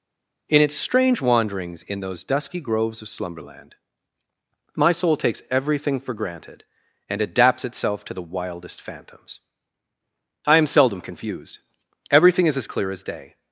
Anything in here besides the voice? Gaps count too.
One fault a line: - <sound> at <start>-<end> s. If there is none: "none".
none